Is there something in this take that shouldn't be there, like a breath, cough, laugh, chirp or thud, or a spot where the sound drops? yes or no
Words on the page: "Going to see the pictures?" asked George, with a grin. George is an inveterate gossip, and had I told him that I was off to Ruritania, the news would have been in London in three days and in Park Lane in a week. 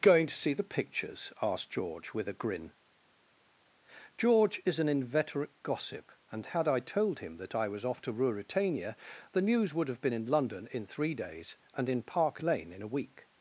no